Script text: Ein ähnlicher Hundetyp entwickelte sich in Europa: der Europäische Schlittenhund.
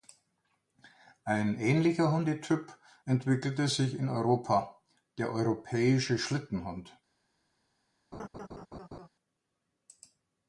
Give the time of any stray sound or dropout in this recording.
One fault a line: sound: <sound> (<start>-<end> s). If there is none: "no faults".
sound: laugh (8.1-9.1 s)